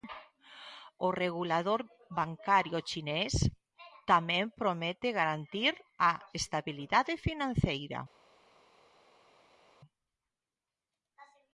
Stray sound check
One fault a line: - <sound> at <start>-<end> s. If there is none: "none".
none